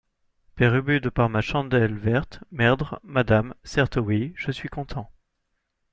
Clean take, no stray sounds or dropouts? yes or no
yes